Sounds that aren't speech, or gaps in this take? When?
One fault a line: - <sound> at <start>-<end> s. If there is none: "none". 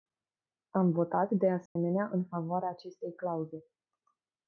- dropout at 1.7-1.8 s